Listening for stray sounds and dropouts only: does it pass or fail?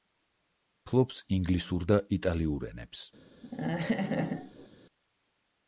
fail